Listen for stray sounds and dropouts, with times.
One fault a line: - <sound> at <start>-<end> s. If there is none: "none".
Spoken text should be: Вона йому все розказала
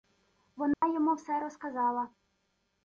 - dropout at 0.7-0.8 s